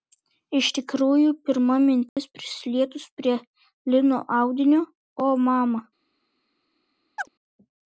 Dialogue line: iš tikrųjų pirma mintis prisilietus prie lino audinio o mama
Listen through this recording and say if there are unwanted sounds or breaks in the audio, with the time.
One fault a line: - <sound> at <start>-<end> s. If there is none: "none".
- dropout at 2.1-2.2 s
- chirp at 7.2-7.3 s